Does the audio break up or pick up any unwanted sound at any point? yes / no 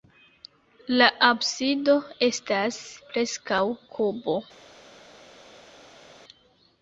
no